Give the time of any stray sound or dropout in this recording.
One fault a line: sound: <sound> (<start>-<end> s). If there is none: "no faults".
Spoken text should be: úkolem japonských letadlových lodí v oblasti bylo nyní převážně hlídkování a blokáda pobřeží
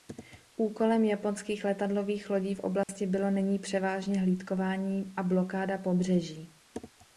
sound: dropout (2.8-2.9 s)